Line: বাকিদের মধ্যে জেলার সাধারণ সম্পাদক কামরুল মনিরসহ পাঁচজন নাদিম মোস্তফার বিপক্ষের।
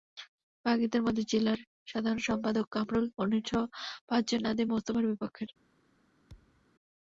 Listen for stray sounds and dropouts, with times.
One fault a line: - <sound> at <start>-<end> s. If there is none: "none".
- thud at 6.3-6.7 s